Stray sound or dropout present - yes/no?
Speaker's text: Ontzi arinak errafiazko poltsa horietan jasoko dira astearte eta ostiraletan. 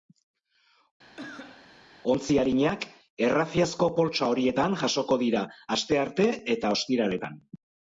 yes